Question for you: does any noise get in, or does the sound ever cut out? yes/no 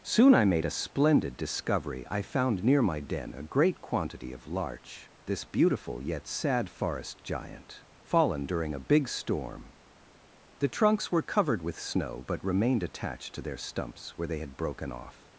no